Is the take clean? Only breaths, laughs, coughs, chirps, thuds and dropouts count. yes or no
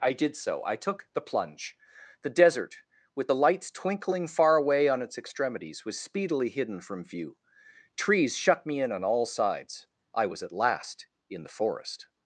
yes